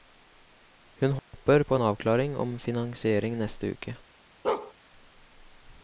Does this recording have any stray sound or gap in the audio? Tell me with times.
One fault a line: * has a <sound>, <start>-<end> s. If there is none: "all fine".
* has a dropout, 1.2-1.3 s
* has a bark, 4.4-4.7 s